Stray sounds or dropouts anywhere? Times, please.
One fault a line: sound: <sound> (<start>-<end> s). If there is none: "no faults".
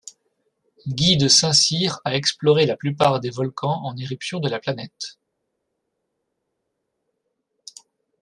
no faults